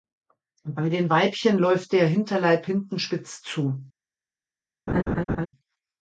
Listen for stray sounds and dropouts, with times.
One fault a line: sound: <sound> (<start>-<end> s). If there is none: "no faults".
sound: laugh (4.9-5.5 s)